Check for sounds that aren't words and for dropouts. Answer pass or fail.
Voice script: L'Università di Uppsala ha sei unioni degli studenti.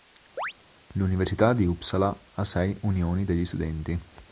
fail